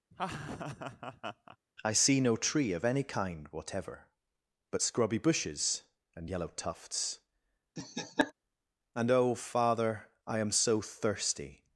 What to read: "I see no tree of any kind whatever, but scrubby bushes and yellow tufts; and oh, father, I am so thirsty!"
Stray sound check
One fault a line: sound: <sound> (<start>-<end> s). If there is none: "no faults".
sound: laugh (0.1-1.6 s)
sound: laugh (7.8-8.3 s)